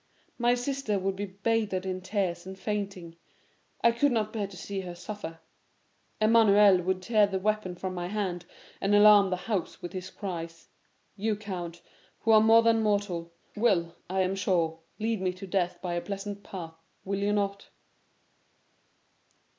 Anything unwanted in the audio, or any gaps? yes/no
no